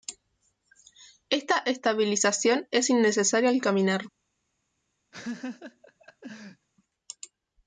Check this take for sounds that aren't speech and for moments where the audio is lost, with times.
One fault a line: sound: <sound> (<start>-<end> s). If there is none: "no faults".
sound: laugh (5.1-6.7 s)